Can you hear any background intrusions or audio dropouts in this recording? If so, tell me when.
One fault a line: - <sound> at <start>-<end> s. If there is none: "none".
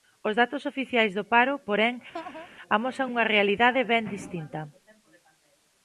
- laugh at 2.1-2.5 s